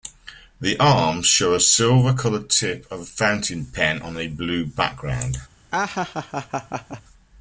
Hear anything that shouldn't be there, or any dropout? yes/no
yes